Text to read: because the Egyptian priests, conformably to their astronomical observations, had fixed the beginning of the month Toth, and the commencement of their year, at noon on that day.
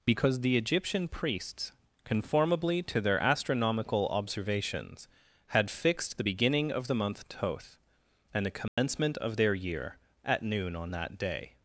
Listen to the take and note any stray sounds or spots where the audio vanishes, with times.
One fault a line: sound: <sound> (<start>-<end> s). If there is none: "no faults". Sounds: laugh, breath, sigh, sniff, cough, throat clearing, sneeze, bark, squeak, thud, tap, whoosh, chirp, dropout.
sound: dropout (8.7-8.8 s)